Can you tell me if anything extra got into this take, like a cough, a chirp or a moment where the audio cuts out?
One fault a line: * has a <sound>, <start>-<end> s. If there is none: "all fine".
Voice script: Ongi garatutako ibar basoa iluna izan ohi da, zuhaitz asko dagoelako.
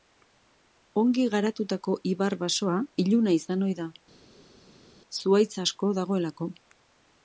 all fine